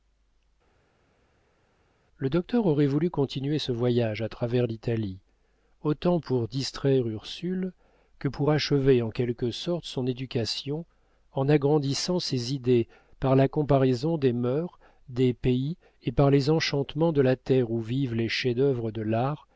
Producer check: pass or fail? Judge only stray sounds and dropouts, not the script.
pass